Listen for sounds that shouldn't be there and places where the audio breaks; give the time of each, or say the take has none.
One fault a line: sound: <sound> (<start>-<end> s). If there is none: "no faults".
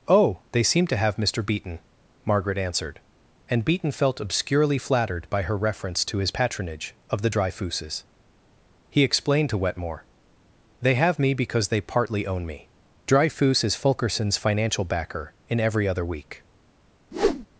sound: whoosh (17.1-17.5 s)